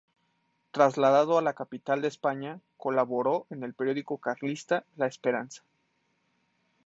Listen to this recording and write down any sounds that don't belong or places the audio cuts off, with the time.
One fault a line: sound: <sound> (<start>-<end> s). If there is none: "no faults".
no faults